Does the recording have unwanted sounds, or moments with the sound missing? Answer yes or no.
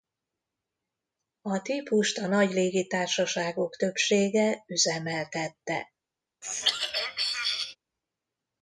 yes